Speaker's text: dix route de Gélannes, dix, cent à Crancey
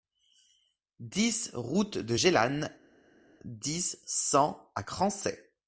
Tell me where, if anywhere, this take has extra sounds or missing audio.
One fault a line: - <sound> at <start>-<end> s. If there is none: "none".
none